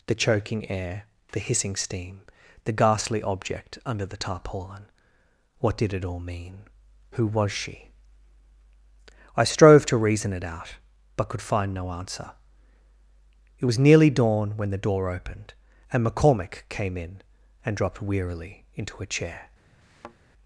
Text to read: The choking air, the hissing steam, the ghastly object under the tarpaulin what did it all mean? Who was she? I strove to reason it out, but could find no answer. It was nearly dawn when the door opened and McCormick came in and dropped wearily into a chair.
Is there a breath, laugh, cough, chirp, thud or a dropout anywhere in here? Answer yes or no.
yes